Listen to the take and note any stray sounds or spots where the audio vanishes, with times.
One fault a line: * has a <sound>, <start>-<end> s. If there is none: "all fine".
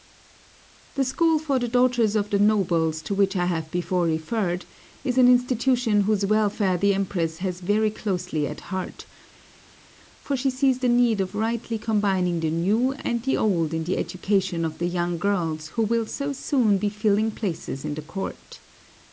all fine